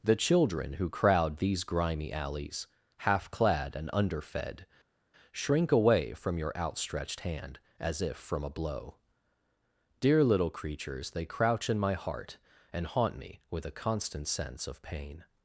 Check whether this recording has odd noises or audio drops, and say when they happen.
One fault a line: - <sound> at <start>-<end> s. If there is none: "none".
none